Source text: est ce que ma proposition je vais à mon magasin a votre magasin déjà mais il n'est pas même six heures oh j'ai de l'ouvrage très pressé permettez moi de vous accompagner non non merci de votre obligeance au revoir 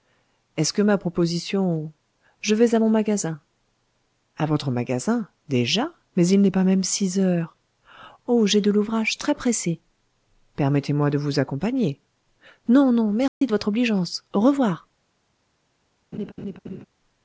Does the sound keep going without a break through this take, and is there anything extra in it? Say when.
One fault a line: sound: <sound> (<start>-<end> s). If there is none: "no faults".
sound: dropout (13.3-13.4 s)
sound: laugh (16.1-16.8 s)